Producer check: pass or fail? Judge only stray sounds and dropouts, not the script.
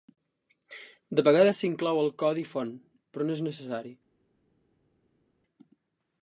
pass